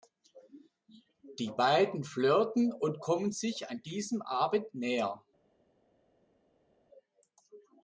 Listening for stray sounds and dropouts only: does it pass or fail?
pass